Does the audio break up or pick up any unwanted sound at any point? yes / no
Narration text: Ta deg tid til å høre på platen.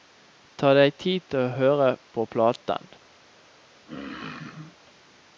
yes